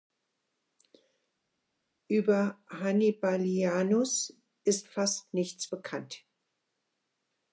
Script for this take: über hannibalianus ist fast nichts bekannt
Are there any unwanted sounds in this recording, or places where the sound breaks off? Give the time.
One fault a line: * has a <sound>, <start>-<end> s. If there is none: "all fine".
all fine